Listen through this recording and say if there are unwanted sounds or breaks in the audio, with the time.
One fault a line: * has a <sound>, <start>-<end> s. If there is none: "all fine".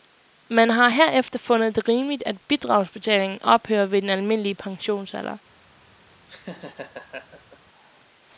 * has a laugh, 6.3-7.6 s